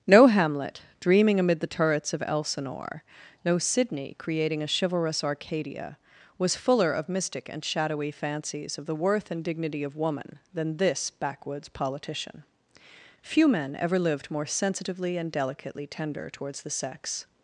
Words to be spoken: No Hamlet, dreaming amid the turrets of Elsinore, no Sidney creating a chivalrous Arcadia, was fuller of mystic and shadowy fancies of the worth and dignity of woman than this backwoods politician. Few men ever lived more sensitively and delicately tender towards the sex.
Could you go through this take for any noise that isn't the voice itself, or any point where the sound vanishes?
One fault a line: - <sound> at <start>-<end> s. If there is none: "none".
none